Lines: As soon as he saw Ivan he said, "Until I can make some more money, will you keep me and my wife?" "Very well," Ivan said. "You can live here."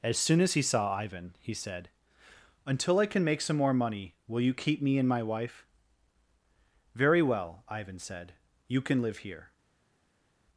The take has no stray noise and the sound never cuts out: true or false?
true